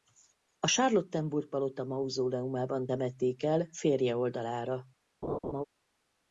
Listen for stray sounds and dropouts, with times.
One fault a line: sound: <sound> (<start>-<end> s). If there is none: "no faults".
sound: laugh (5.2-5.6 s)